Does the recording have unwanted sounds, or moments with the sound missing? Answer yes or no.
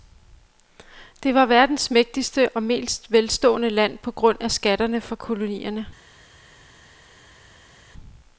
no